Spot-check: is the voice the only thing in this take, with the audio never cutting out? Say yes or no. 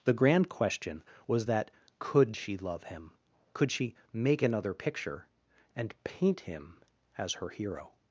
yes